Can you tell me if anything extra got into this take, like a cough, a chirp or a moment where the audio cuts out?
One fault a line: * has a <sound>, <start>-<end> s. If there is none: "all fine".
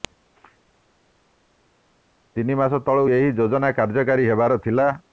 all fine